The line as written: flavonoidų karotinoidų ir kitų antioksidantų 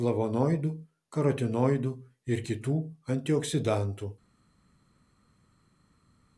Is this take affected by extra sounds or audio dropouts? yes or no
no